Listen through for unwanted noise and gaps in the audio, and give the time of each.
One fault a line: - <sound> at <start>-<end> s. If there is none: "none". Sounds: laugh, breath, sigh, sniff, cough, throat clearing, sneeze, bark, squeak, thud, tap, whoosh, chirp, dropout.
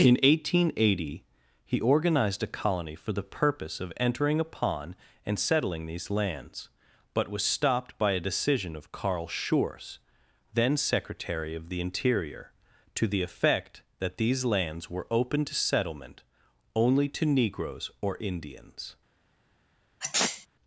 - sneeze at 20.0-20.5 s